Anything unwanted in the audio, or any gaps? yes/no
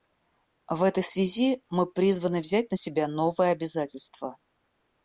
no